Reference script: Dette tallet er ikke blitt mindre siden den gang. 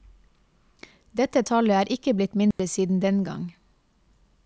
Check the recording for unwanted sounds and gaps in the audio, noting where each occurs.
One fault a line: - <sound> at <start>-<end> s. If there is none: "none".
- dropout at 2.5-2.6 s